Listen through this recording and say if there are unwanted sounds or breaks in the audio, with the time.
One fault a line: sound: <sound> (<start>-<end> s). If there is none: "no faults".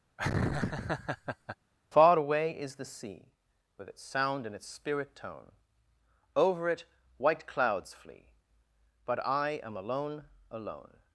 sound: laugh (0.2-1.6 s)